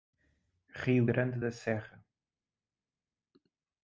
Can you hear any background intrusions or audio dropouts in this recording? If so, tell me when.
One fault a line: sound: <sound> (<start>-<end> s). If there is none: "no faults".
no faults